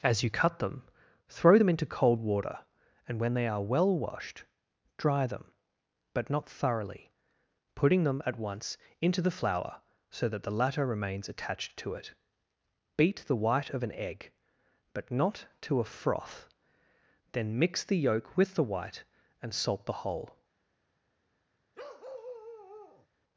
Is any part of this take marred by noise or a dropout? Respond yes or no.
yes